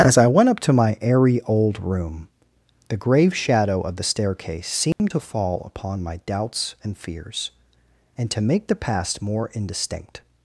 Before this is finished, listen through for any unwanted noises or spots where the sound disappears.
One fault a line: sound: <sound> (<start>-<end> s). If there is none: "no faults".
sound: dropout (4.9-5.0 s)